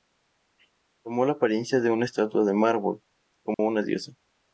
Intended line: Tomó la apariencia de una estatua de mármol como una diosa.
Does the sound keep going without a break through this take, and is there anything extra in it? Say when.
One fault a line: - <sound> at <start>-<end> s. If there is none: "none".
- dropout at 3.5-3.6 s